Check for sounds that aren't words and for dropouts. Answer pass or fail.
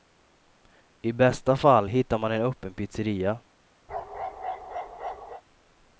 fail